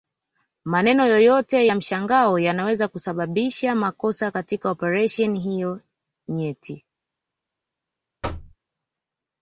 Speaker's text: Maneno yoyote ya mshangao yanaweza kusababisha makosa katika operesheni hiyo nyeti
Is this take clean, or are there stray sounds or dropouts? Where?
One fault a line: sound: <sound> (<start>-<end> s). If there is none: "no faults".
sound: thud (8.2-8.6 s)